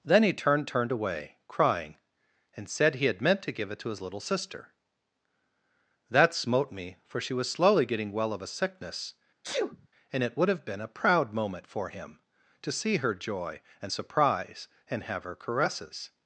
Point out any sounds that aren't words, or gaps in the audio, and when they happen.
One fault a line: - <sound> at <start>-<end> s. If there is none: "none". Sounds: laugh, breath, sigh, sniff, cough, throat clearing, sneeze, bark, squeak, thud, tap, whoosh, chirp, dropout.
- sneeze at 9.4-9.9 s